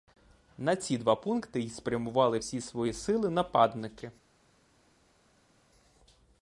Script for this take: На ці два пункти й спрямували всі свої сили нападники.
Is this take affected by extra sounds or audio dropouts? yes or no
no